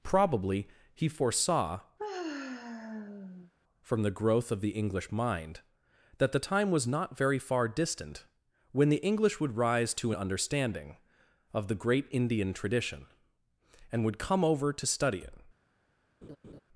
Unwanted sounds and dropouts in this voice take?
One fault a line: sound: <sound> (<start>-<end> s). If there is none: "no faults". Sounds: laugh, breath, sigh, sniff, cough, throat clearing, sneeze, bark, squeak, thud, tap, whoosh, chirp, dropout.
sound: sigh (2.0-3.5 s)
sound: laugh (16.2-16.6 s)